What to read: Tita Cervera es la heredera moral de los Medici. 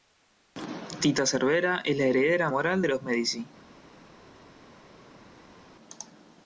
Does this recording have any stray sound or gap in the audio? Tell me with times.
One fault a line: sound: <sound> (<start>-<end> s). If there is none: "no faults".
no faults